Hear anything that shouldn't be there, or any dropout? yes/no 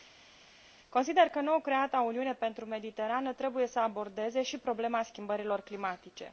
no